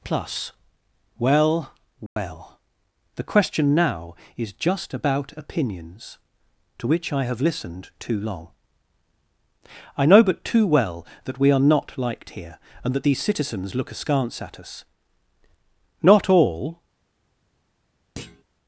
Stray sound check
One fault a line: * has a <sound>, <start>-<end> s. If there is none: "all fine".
* has a dropout, 2.1-2.2 s
* has a thud, 18.2-18.4 s